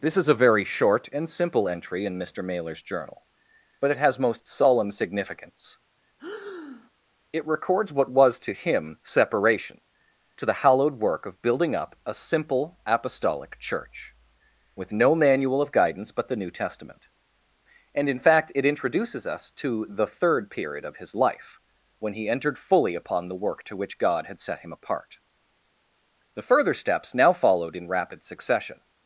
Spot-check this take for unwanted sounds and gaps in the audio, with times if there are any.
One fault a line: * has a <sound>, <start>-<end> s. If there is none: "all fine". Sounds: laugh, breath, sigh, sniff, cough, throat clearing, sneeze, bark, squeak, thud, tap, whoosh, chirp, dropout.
* has a breath, 6.2-6.9 s